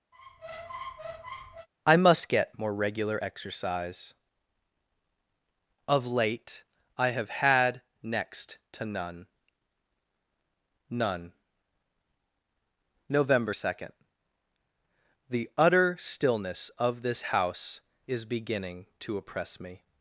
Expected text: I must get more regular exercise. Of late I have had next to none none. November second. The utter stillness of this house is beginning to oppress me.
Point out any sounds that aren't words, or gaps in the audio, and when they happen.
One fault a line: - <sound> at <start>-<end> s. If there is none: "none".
- squeak at 0.1-1.7 s